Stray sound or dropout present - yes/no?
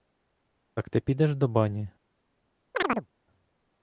yes